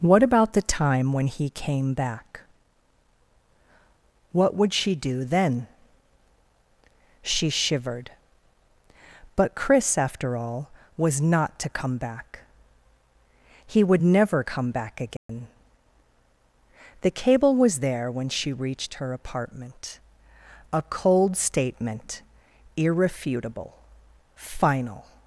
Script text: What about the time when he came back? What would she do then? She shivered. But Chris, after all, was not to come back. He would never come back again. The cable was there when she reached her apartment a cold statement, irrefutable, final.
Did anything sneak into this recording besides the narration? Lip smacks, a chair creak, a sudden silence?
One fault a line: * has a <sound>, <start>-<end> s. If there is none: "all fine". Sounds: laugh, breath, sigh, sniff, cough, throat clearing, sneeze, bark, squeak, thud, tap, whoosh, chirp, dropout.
* has a dropout, 15.2-15.3 s